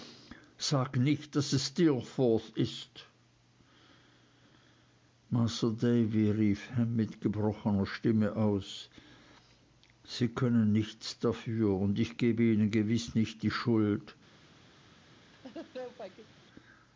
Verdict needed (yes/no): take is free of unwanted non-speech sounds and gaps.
no